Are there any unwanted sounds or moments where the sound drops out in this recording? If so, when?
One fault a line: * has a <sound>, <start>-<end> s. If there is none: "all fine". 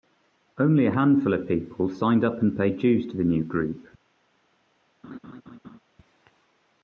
* has a laugh, 5.0-5.8 s